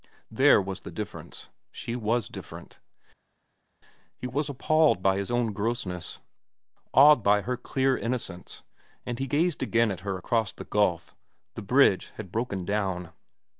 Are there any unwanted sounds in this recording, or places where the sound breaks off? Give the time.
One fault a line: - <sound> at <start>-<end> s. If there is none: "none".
none